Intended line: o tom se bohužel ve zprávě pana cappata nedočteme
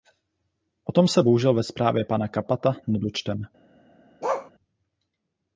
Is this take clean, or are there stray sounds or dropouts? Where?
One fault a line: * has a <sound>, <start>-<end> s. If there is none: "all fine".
* has a bark, 4.2-4.5 s